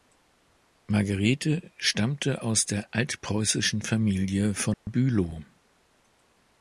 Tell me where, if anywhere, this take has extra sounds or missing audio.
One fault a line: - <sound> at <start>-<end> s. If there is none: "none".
- dropout at 4.7-4.9 s